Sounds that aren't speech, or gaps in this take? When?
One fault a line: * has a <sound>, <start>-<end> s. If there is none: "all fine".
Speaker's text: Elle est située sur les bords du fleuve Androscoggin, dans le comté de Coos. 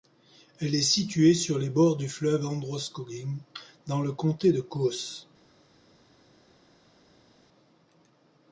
all fine